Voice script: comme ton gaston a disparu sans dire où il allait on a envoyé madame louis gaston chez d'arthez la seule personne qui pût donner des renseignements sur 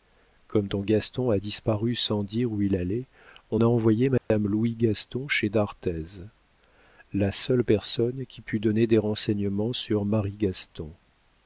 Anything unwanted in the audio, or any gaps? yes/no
yes